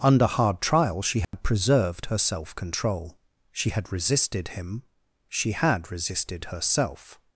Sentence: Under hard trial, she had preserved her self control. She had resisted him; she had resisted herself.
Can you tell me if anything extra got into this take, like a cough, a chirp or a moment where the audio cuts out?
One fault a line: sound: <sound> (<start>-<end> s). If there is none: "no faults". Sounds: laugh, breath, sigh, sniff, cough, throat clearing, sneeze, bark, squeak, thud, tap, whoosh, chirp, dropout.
sound: dropout (1.2-1.3 s)